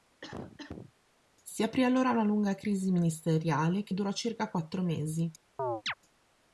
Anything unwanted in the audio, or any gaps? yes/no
yes